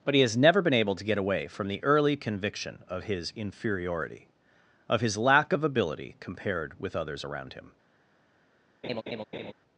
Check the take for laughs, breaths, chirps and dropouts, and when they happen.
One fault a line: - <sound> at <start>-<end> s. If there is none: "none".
- laugh at 8.8-9.5 s